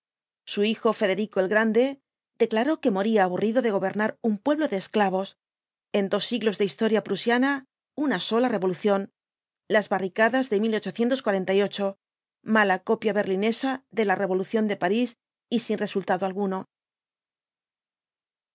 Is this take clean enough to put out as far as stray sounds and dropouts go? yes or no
yes